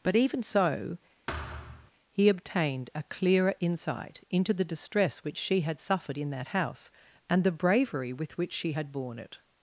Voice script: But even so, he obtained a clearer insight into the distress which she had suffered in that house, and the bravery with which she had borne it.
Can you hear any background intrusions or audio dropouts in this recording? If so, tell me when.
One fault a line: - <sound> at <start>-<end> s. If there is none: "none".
- thud at 1.3-1.9 s